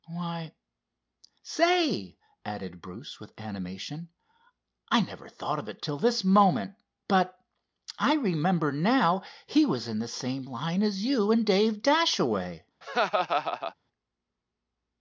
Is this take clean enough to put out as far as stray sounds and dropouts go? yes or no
no